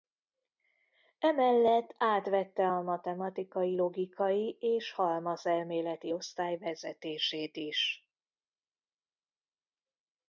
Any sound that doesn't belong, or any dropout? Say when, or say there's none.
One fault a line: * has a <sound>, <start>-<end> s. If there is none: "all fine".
all fine